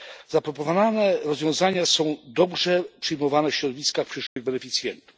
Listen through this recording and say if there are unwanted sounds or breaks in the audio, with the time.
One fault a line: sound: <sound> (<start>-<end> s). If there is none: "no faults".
sound: dropout (4.3-4.4 s)